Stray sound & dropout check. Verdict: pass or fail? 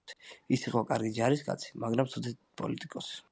pass